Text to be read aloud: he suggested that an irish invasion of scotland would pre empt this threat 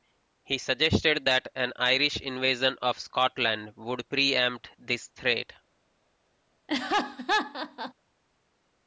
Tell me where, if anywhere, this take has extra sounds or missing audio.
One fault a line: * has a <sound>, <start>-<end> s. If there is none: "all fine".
* has a laugh, 6.7-7.9 s